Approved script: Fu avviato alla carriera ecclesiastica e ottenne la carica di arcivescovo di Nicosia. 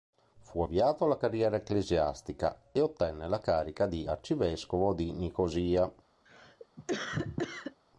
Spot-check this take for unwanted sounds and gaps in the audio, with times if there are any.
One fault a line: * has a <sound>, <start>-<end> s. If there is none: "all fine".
* has a cough, 6.3-7.8 s